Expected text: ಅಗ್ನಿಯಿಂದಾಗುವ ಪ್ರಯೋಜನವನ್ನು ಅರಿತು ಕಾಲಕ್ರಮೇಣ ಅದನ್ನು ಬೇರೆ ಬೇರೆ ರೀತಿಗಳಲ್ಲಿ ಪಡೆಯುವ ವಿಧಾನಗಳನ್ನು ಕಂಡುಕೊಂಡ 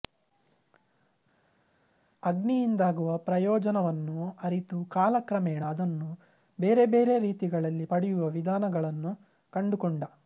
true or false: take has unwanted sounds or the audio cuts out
false